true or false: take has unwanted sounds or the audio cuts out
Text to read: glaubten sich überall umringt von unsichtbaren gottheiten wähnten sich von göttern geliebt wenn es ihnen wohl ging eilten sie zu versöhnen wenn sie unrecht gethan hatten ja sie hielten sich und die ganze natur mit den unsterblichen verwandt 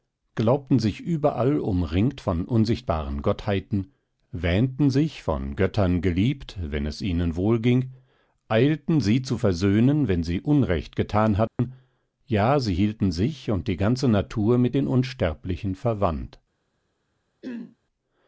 true